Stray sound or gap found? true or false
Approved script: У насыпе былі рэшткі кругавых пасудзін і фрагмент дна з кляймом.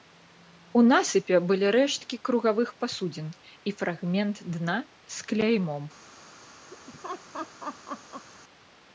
true